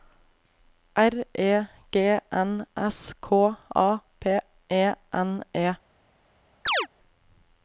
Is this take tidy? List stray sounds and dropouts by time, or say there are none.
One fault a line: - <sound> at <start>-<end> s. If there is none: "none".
- chirp at 6.7-6.9 s